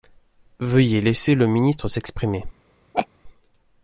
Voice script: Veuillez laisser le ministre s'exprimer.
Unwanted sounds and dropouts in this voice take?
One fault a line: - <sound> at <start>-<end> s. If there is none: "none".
- laugh at 2.9-3.1 s